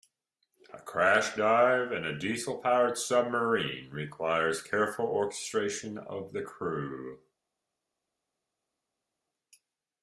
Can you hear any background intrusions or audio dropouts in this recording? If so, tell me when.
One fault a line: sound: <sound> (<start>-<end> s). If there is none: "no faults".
no faults